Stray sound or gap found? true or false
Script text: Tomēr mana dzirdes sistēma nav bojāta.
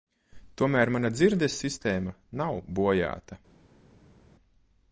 false